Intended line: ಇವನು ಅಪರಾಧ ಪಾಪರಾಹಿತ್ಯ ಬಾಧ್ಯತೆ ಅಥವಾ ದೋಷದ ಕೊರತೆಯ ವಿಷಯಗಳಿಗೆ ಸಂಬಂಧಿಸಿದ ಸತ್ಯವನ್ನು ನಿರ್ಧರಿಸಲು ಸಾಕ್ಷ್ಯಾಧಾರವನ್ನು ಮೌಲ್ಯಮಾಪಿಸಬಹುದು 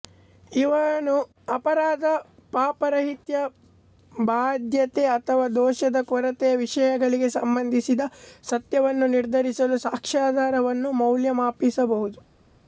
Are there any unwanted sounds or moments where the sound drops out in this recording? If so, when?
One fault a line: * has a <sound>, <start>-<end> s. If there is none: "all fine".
all fine